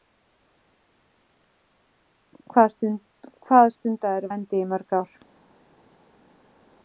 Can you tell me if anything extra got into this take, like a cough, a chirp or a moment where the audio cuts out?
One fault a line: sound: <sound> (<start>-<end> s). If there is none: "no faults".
no faults